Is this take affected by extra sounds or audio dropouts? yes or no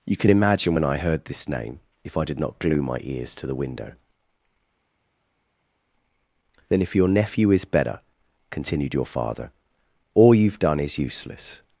no